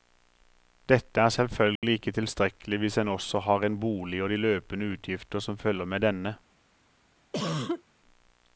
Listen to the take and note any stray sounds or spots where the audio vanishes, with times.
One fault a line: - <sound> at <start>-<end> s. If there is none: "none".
- dropout at 1.8-1.8 s
- cough at 7.3-7.8 s